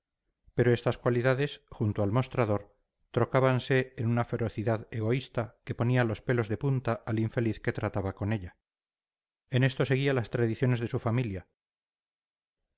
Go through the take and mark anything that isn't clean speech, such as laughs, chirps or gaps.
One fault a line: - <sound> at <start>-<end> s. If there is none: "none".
none